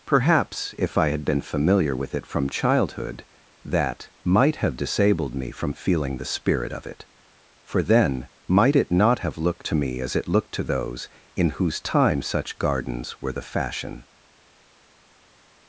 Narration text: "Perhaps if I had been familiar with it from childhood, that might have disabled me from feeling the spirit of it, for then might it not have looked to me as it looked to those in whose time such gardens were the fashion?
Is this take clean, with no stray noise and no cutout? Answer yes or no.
yes